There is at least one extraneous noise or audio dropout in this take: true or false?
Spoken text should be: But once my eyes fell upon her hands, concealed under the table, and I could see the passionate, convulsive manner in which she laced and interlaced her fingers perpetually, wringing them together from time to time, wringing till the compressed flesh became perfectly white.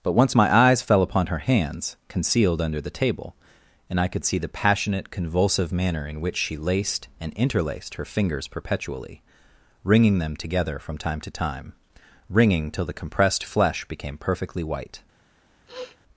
true